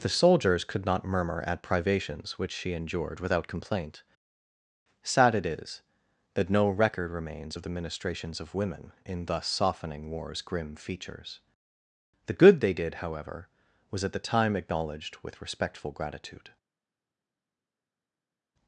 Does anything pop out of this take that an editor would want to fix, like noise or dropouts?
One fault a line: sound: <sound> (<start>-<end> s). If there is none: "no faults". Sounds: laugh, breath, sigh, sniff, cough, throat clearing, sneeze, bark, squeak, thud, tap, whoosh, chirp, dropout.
no faults